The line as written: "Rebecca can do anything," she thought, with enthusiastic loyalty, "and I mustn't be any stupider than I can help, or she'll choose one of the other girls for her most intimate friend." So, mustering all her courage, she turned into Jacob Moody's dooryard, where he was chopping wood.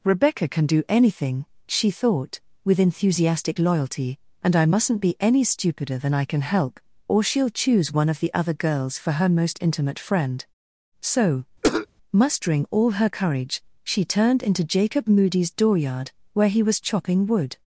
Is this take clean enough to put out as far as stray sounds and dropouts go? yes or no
no